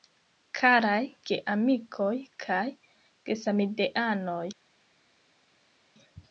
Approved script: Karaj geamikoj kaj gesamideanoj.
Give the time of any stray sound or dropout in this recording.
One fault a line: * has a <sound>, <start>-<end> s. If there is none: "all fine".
all fine